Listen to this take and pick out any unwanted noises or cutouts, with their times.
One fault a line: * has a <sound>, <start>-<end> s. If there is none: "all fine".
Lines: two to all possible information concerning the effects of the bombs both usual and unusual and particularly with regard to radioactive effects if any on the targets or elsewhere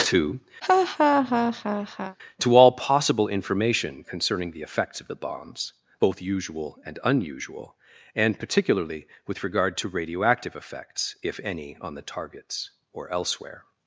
* has a laugh, 0.6-2.2 s